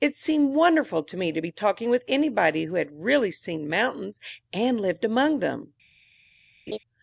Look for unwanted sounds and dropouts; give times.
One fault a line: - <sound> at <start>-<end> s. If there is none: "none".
- laugh at 6.7-6.8 s